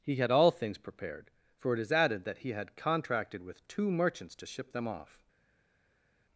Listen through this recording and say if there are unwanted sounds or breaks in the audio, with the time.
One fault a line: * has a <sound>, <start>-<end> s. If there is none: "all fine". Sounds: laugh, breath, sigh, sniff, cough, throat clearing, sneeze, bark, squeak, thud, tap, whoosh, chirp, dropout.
all fine